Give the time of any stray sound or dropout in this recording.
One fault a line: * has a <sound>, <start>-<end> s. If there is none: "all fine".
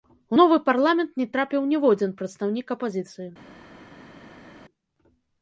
all fine